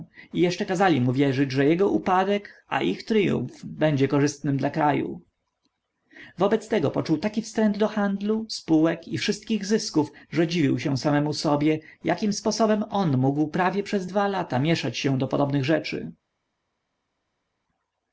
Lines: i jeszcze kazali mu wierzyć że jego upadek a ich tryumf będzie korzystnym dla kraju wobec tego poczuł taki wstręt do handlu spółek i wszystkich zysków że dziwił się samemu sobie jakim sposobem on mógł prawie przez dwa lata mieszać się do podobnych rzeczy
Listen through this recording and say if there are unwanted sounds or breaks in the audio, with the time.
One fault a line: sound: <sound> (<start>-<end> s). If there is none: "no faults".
no faults